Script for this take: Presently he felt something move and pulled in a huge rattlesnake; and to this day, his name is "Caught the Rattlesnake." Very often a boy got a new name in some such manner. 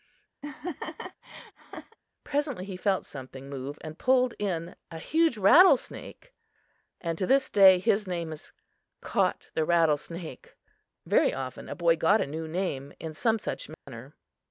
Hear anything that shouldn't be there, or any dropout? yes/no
yes